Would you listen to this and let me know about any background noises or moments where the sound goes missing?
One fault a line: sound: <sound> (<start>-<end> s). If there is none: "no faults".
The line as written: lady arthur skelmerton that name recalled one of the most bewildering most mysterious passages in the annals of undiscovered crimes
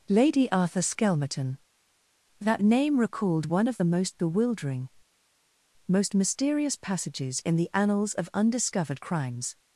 no faults